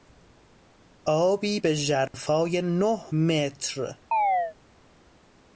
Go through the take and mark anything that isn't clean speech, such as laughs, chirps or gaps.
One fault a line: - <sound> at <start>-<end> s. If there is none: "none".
- dropout at 2.1-2.1 s
- chirp at 4.1-4.6 s